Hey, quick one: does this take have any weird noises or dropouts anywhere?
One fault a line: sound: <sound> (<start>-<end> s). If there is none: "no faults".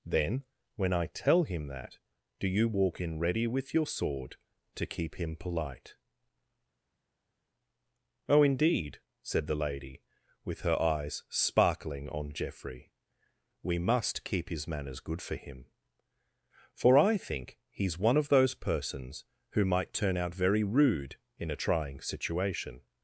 no faults